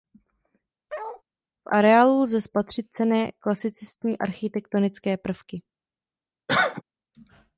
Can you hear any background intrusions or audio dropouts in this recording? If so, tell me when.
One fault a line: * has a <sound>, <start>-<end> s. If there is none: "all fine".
* has a bark, 0.9-1.2 s
* has a cough, 6.5-6.8 s